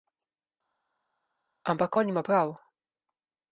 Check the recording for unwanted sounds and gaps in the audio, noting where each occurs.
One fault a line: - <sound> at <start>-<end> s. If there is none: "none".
none